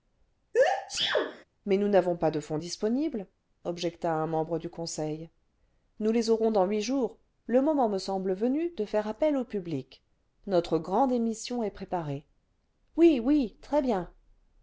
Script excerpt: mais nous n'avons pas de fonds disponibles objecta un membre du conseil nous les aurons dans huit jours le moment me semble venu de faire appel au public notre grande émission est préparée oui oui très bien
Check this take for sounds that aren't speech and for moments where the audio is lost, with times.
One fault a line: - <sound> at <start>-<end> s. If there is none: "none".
- sneeze at 0.5-1.4 s